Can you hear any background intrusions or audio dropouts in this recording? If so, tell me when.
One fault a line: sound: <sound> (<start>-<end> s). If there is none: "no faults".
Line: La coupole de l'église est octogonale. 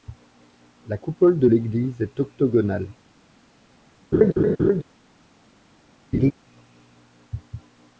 sound: laugh (4.1-4.8 s)
sound: laugh (6.1-6.3 s)